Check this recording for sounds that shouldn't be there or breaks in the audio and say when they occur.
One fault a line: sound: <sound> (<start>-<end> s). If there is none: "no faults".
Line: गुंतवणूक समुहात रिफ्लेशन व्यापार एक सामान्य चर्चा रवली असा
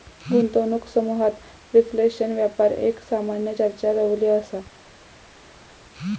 no faults